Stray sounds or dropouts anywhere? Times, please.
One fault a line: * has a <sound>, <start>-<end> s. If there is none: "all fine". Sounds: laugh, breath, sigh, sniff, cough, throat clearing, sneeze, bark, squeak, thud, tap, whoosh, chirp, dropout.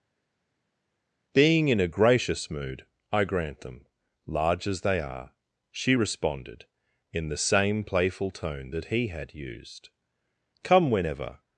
all fine